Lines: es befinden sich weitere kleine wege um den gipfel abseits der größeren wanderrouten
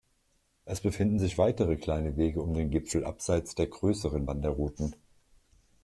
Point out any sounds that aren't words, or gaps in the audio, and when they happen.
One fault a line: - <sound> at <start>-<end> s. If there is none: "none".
none